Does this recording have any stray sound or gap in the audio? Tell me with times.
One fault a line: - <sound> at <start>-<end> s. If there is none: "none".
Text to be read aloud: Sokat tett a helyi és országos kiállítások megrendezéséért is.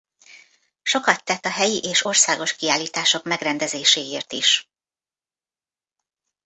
none